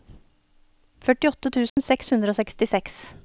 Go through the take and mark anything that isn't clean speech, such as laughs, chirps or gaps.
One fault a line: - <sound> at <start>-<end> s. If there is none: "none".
- dropout at 1.7-1.8 s